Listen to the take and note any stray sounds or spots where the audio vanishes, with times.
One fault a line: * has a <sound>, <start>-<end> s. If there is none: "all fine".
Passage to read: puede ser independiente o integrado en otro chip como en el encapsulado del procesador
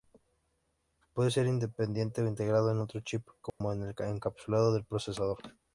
* has a dropout, 3.5-3.6 s